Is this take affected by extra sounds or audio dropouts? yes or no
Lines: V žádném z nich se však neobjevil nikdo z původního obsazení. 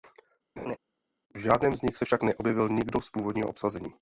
yes